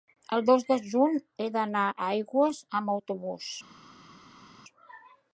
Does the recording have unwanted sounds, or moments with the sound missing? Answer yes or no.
no